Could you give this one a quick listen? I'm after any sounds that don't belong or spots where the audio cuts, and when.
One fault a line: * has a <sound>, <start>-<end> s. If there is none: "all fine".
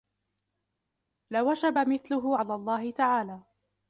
all fine